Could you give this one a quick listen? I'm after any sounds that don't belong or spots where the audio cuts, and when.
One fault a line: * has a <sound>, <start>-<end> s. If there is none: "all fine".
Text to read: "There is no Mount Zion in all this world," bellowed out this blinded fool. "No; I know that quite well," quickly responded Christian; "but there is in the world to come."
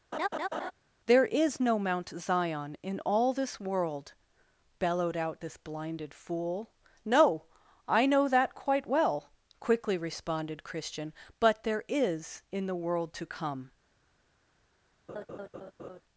* has a laugh, 0.1-0.7 s
* has a laugh, 15.1-16.0 s